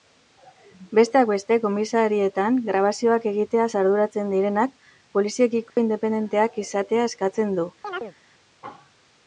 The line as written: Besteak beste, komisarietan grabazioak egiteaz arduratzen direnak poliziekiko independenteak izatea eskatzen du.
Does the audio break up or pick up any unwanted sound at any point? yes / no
yes